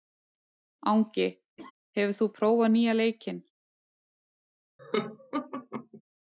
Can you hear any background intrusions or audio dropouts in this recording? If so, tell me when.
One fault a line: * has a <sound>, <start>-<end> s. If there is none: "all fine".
* has a laugh, 1.6-1.7 s
* has a laugh, 4.8-6.0 s